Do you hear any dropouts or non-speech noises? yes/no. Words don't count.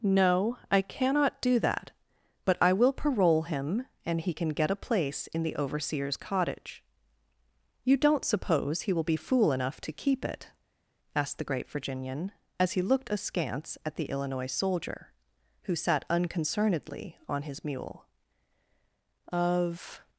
no